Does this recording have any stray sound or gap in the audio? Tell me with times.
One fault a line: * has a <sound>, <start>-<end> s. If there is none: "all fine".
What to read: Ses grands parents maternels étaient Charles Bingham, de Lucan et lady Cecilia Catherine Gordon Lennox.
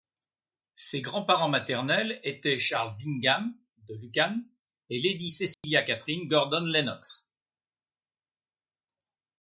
* has a dropout, 5.5-5.6 s